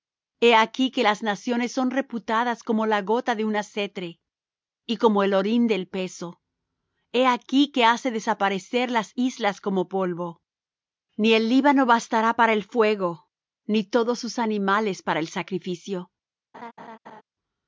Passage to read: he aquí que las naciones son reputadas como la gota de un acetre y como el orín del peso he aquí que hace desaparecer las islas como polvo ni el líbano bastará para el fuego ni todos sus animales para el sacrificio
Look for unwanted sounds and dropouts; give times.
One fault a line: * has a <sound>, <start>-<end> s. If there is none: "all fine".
* has a laugh, 16.5-17.2 s